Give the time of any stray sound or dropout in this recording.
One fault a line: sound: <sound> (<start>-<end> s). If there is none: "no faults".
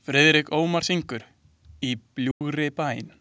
sound: dropout (2.3-2.4 s)